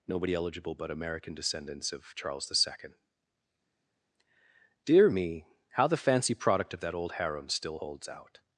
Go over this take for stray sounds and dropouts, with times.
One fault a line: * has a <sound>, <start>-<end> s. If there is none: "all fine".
all fine